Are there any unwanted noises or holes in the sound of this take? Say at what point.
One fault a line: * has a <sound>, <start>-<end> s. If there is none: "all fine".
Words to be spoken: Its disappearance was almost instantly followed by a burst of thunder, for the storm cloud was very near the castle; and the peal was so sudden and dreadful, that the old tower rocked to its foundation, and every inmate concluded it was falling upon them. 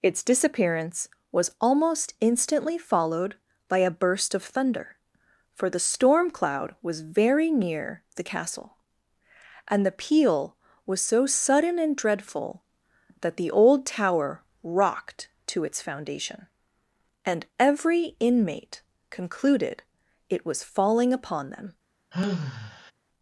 * has a sigh, 22.1-22.9 s